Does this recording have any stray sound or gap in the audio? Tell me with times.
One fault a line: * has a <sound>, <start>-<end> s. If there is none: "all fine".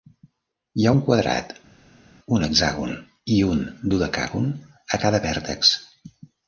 all fine